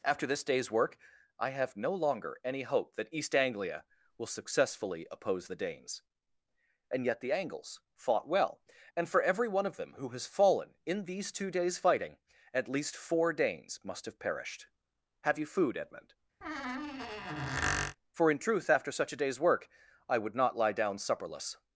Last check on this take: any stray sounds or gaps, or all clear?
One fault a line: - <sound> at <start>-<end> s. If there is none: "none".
- squeak at 16.4-18.0 s